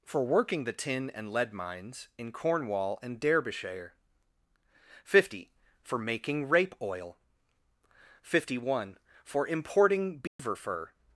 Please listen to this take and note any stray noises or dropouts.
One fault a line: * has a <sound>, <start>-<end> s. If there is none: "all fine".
* has a dropout, 10.3-10.4 s